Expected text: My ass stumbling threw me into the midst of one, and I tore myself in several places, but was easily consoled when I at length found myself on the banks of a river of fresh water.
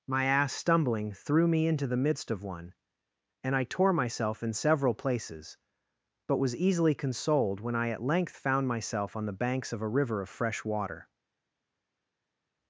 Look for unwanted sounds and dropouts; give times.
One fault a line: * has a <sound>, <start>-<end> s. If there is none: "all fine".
all fine